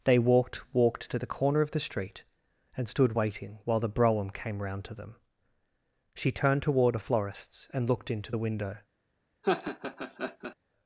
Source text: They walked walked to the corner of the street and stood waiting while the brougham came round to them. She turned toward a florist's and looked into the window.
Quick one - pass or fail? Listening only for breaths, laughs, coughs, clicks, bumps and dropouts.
fail